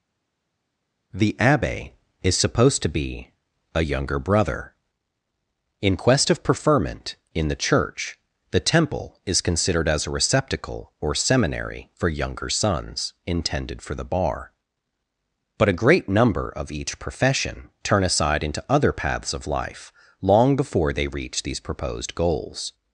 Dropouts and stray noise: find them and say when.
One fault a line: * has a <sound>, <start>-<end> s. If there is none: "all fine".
all fine